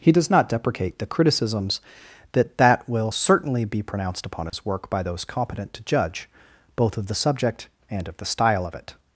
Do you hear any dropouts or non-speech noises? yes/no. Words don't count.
yes